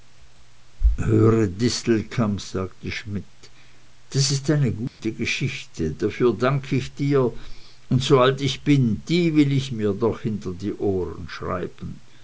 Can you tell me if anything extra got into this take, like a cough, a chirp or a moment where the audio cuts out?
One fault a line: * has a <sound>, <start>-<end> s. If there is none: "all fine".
* has a dropout, 4.9-5.0 s